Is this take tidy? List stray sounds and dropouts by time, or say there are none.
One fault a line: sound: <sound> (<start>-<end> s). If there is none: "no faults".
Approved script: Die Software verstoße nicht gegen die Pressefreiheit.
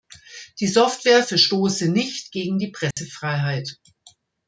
sound: dropout (2.9-3.0 s)